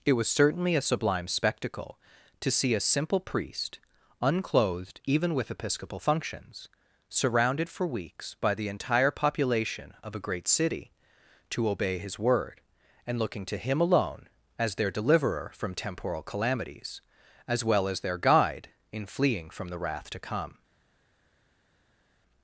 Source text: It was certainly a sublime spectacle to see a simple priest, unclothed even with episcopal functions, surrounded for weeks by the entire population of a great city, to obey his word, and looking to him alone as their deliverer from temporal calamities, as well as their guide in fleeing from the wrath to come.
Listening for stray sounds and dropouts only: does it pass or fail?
pass